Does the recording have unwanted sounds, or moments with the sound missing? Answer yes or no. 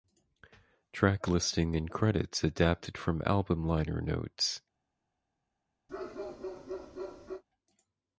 yes